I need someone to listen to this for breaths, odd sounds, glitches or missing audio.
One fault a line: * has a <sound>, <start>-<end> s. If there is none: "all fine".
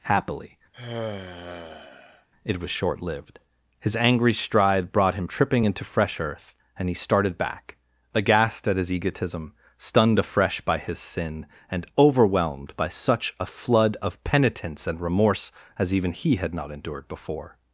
* has a sigh, 0.7-2.3 s